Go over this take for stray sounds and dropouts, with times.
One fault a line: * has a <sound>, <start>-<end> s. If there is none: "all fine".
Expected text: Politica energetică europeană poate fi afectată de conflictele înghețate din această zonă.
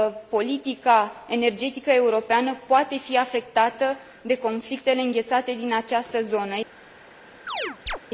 * has a chirp, 7.5-8.0 s